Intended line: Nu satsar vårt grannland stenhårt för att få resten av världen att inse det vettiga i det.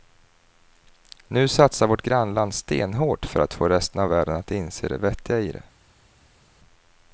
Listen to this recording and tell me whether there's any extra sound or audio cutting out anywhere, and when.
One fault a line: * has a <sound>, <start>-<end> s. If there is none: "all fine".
all fine